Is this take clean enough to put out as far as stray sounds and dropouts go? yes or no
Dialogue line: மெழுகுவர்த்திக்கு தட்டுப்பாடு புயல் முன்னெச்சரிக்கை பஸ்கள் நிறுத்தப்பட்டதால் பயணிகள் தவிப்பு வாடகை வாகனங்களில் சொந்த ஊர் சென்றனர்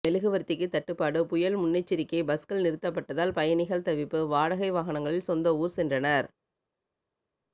yes